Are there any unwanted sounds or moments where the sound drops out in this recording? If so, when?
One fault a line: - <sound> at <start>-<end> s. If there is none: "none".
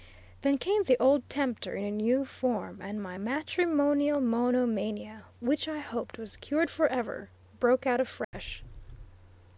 - dropout at 8.2-8.3 s